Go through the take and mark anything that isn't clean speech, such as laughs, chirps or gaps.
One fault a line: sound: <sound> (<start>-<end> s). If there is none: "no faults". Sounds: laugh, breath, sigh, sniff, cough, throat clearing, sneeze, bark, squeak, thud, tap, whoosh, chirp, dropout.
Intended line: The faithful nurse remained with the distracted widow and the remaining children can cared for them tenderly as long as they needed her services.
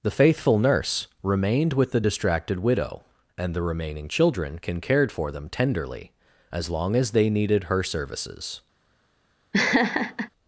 sound: laugh (9.5-10.3 s)